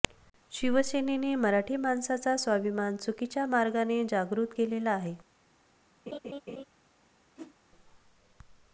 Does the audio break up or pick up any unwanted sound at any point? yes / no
yes